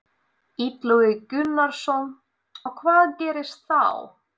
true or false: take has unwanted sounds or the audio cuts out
false